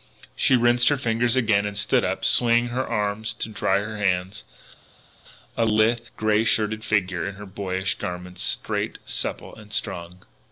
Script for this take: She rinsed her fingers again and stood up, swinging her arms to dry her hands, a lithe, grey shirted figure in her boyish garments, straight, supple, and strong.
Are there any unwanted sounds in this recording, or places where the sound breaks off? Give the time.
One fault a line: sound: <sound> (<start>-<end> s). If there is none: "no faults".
no faults